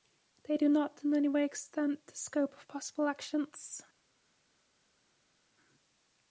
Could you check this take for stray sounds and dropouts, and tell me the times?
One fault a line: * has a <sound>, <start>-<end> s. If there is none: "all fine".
all fine